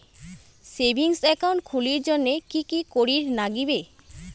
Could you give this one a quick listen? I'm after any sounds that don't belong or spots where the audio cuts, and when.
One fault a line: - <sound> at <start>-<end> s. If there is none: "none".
none